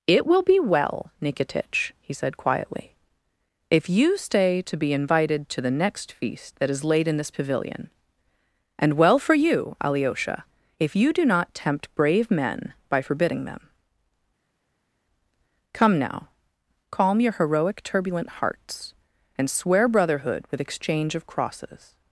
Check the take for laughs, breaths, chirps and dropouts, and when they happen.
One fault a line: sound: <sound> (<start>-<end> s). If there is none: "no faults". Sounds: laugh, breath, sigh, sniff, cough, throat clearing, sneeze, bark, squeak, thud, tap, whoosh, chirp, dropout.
no faults